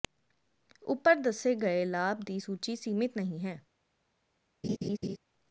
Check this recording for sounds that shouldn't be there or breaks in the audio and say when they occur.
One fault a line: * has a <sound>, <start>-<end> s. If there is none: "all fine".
* has a laugh, 4.6-5.2 s